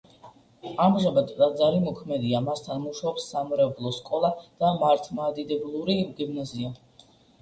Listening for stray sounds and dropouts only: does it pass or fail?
pass